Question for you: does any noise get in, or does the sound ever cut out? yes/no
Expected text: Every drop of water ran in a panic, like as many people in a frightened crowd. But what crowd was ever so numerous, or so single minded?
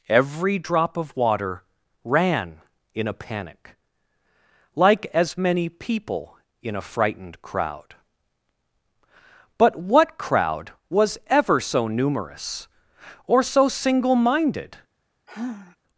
yes